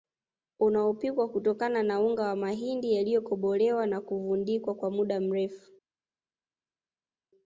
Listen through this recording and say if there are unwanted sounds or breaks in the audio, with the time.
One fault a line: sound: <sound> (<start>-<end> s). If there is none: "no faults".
no faults